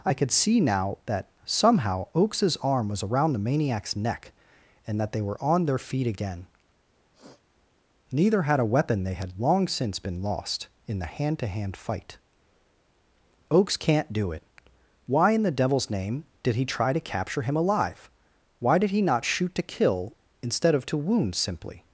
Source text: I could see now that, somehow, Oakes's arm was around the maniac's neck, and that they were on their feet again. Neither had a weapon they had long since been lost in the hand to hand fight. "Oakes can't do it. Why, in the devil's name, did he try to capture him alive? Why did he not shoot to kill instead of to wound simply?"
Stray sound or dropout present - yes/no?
yes